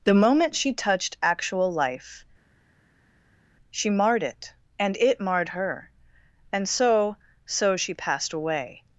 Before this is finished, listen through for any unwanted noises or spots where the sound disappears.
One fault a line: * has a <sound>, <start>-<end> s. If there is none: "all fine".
all fine